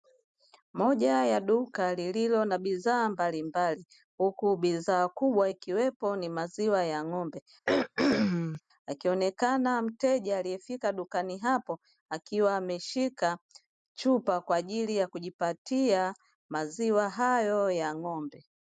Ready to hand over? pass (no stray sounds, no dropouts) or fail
fail